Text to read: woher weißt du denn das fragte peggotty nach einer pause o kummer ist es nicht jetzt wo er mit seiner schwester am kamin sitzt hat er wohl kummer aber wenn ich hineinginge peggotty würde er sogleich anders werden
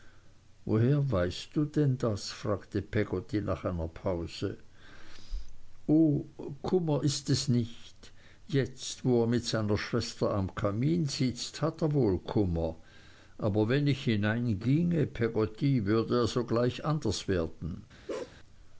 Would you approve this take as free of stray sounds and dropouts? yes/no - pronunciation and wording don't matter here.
no